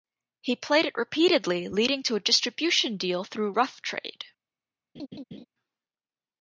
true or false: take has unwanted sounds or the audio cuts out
true